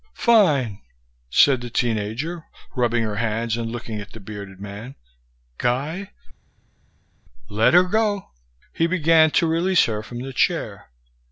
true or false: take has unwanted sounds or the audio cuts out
false